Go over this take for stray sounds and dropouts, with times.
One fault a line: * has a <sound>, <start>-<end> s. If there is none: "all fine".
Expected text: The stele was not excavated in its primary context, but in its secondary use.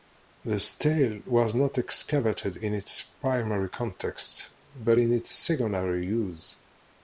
all fine